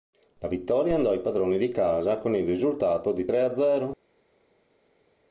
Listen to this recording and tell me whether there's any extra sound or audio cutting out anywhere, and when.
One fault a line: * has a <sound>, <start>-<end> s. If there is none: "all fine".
all fine